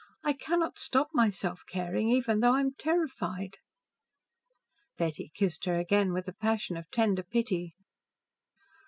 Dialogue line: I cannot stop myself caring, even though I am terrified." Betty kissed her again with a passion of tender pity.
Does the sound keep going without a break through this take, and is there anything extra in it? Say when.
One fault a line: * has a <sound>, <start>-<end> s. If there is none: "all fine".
all fine